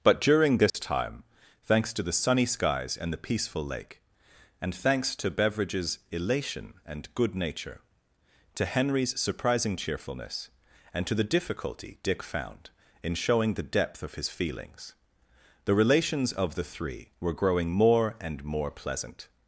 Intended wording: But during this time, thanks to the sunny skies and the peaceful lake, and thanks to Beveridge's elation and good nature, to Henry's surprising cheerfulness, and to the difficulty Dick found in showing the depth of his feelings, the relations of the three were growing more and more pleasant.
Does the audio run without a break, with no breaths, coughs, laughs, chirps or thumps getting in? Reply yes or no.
no